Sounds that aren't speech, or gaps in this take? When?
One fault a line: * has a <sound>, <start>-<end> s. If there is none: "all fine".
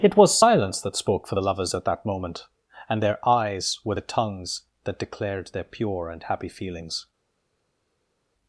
all fine